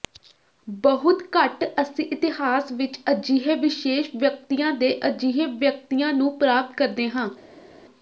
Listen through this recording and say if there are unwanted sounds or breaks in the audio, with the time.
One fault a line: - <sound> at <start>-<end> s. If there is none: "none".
none